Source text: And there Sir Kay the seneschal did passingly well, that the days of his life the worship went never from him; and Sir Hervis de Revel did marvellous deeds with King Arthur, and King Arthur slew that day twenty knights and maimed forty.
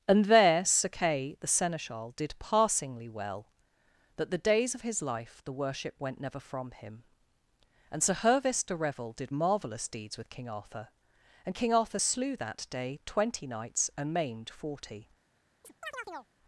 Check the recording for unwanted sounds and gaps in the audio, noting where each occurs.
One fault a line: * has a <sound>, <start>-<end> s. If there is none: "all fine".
* has a chirp, 15.6-16.3 s